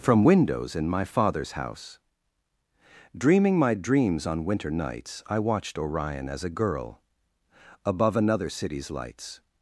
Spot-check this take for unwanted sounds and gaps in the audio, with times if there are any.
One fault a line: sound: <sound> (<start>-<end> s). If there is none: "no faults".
no faults